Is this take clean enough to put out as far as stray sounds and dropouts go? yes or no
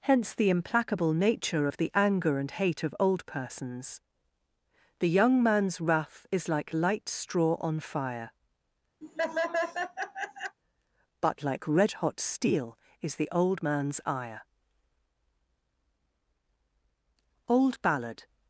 no